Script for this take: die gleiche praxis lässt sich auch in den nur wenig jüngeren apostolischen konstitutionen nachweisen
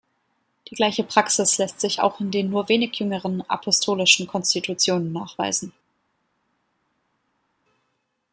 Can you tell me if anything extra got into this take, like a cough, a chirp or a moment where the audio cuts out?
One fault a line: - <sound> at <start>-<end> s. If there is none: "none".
none